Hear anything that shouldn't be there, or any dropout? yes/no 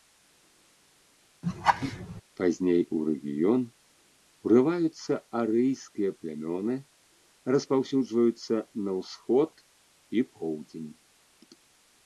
yes